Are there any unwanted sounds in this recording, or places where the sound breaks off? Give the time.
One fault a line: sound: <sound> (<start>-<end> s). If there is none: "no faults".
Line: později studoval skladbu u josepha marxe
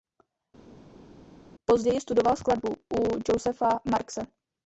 no faults